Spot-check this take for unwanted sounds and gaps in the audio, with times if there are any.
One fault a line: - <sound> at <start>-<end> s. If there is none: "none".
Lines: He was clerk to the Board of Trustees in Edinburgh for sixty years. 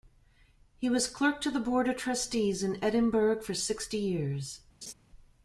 - laugh at 4.8-4.9 s